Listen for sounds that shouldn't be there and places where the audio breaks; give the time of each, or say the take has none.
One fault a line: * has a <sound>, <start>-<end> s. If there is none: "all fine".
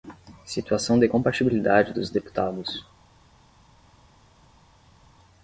all fine